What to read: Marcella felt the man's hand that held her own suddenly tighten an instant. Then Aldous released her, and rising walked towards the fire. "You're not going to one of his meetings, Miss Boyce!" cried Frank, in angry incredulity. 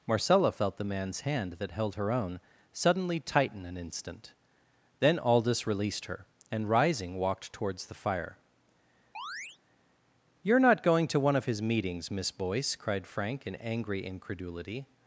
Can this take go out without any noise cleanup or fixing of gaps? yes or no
no